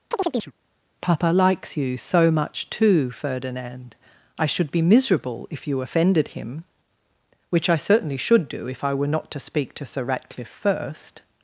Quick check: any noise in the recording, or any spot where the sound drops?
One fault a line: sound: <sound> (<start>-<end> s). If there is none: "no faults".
sound: chirp (0.1-0.5 s)